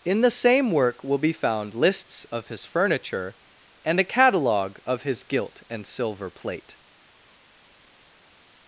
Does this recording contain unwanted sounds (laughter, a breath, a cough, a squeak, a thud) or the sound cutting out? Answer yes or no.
no